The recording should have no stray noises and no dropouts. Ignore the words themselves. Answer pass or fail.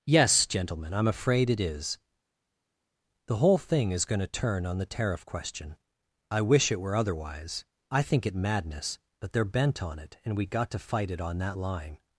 pass